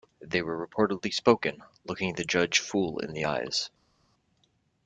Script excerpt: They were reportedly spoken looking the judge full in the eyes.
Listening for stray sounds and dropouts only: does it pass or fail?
pass